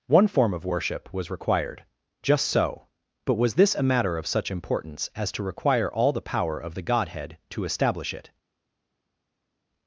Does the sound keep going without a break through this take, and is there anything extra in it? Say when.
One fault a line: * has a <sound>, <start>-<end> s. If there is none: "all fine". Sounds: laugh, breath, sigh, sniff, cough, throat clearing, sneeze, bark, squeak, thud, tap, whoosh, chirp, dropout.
all fine